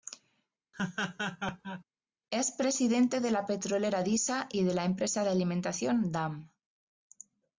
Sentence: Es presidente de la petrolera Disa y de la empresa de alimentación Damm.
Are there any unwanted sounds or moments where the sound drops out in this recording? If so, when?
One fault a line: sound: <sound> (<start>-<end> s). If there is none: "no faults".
sound: laugh (0.7-1.8 s)